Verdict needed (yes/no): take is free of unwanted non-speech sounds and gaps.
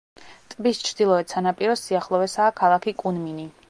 yes